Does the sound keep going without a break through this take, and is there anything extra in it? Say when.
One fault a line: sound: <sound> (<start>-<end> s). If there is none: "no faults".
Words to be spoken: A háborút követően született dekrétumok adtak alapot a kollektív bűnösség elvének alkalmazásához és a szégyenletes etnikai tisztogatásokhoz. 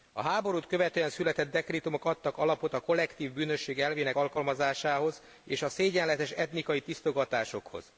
no faults